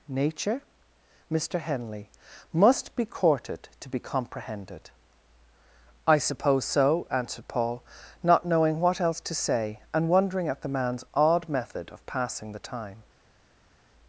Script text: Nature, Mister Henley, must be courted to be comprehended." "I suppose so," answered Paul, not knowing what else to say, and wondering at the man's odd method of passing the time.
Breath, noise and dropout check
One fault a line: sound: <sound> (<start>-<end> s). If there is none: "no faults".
no faults